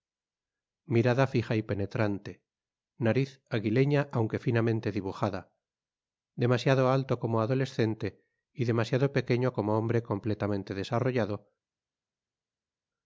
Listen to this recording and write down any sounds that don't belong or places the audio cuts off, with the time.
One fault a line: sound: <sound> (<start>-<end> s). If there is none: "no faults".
no faults